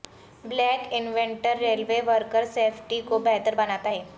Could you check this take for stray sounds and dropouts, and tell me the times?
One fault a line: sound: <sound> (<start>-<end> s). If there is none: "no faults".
no faults